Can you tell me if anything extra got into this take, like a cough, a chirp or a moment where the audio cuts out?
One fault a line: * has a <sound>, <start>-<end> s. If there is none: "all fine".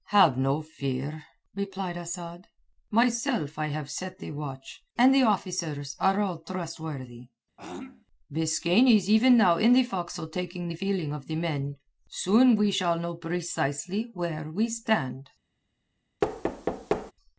* has a throat clearing, 7.6-8.1 s
* has a thud, 16.2-17.1 s